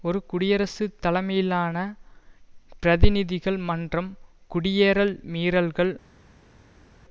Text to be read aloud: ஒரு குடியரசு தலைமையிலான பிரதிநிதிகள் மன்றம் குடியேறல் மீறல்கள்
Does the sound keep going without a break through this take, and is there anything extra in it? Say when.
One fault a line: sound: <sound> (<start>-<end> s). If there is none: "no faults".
no faults